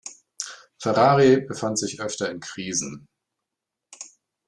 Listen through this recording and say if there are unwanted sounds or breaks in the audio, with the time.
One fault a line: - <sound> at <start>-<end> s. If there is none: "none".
none